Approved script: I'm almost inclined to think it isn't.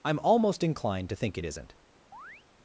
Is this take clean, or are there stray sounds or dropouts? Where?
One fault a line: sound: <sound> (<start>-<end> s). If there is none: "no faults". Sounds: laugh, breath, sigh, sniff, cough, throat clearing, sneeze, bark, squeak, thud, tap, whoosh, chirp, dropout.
sound: chirp (2.1-2.4 s)